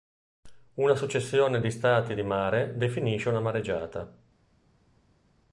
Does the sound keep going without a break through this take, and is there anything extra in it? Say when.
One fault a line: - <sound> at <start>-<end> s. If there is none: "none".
none